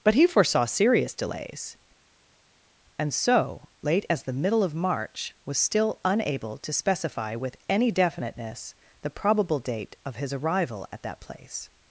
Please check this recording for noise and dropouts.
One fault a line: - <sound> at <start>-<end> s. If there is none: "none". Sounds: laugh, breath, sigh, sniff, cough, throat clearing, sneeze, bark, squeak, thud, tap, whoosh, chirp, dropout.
none